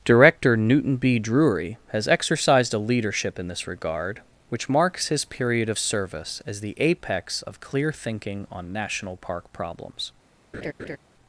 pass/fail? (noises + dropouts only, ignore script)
fail